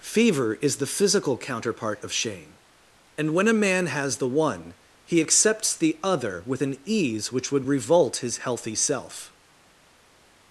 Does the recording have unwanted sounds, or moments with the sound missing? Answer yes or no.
no